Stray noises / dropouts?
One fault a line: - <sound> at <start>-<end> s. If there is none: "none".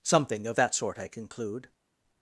none